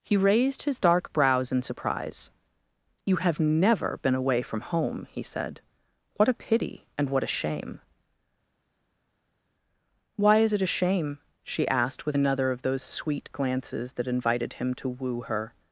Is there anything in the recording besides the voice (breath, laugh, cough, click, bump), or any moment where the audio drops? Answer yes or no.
no